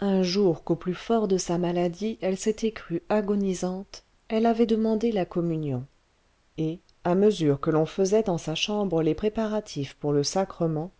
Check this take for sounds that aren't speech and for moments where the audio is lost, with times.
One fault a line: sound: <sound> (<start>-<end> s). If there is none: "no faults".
no faults